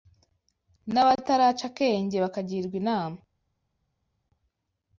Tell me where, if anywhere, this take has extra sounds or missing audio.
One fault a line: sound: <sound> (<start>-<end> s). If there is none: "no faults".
no faults